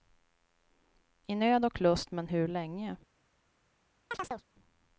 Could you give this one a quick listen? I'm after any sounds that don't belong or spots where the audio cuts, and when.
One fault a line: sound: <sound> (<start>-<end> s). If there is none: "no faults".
sound: chirp (4.1-4.4 s)